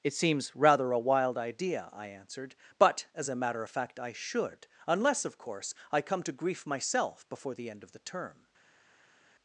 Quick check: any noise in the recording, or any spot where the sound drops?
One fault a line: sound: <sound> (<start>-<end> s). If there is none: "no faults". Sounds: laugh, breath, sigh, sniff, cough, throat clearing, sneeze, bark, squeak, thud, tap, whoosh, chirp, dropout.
no faults